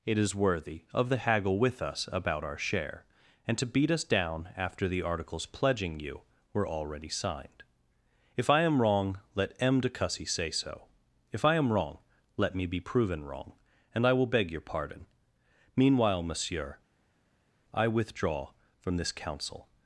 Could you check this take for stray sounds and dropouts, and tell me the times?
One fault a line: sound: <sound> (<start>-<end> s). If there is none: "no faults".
no faults